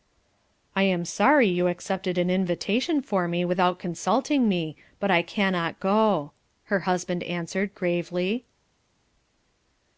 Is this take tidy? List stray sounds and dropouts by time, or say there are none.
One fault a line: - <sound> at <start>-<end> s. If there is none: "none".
none